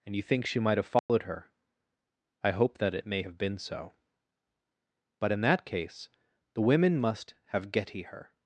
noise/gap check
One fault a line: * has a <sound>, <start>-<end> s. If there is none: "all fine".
* has a dropout, 1.0-1.1 s